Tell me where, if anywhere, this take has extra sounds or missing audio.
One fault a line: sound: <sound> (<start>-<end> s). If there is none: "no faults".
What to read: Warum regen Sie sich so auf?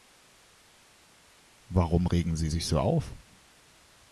no faults